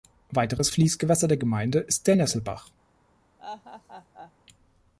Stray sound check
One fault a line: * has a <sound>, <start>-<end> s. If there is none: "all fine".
* has a laugh, 3.4-4.3 s